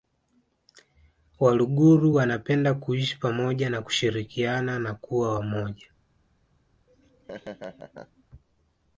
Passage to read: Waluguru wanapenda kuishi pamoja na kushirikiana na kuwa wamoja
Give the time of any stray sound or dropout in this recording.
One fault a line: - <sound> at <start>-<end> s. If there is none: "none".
- laugh at 6.9-8.2 s